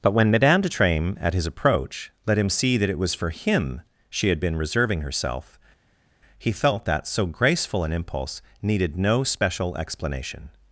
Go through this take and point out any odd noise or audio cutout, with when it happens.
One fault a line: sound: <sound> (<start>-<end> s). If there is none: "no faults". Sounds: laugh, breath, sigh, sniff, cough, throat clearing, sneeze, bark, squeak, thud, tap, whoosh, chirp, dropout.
no faults